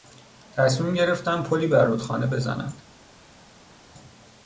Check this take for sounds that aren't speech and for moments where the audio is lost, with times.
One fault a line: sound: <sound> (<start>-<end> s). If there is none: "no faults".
no faults